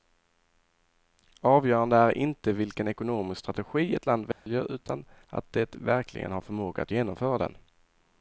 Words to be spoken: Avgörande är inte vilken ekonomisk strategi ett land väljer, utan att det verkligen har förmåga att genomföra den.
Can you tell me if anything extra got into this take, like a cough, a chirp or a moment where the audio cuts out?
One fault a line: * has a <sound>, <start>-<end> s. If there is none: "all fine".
* has a dropout, 4.3-4.5 s